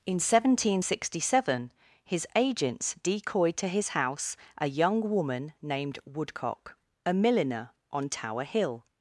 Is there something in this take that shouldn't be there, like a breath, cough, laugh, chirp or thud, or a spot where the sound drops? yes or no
no